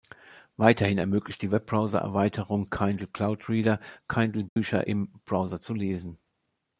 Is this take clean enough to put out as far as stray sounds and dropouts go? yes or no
no